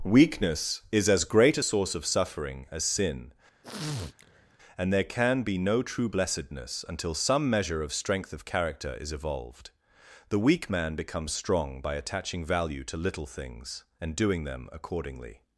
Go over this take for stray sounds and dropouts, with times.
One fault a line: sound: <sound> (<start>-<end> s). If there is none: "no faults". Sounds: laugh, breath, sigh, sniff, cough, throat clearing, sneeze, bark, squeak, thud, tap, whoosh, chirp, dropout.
sound: sniff (3.6-4.6 s)